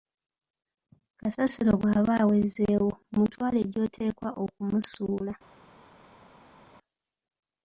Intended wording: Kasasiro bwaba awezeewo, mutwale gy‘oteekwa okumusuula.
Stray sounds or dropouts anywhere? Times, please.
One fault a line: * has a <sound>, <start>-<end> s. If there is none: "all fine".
all fine